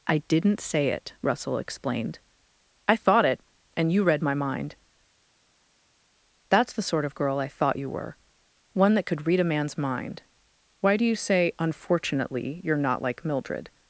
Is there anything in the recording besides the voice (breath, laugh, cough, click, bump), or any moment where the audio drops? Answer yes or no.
no